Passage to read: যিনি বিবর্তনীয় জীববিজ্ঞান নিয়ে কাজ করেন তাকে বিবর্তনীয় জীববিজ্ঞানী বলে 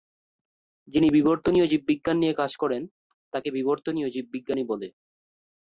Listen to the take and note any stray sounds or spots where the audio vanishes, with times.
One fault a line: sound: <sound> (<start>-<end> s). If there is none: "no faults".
no faults